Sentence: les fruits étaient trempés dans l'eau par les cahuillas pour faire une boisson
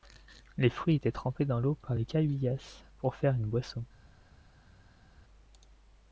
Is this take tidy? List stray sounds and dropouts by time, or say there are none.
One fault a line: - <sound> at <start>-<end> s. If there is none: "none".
none